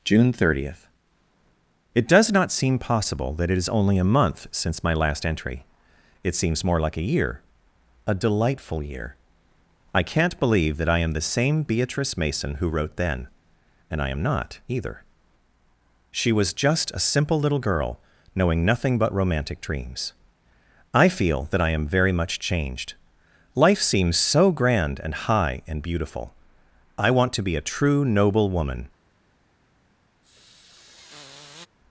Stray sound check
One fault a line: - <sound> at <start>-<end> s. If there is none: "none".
- sniff at 30.2-31.7 s